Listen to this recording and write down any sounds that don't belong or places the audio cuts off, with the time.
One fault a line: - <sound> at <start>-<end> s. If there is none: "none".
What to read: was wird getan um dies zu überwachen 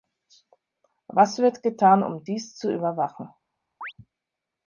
- chirp at 3.8-3.9 s